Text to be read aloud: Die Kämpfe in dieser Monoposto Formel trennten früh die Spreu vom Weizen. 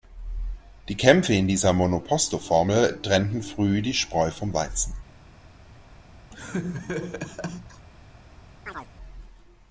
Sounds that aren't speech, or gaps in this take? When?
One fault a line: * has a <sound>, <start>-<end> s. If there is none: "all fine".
* has a laugh, 6.3-7.9 s
* has a chirp, 8.7-8.9 s